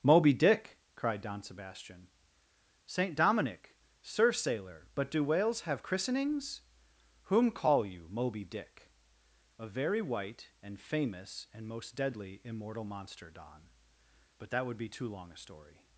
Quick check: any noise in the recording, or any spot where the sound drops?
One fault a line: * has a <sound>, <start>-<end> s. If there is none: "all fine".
all fine